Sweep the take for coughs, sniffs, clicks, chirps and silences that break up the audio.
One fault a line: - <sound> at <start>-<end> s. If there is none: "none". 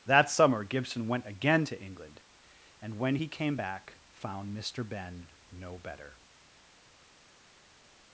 none